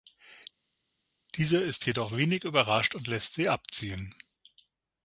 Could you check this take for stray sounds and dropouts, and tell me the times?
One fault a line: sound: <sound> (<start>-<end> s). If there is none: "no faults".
no faults